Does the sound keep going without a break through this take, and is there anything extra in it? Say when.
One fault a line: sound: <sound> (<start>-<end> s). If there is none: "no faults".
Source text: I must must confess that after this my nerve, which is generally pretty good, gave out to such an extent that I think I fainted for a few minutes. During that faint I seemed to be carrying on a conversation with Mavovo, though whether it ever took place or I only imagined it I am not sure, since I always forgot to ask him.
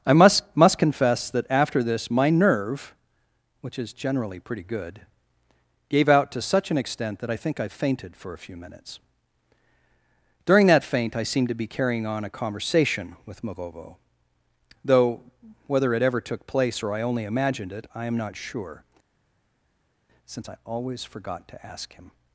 no faults